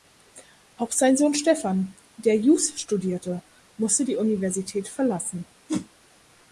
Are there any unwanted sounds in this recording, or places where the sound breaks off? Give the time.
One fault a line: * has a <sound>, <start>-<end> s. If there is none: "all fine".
* has a whoosh, 5.7-5.9 s